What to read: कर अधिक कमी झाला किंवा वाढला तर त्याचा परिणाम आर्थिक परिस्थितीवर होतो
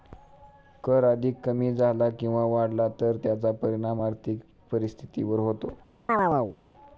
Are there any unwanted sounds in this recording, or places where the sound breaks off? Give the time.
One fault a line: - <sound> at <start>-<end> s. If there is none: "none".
- chirp at 6.1-6.6 s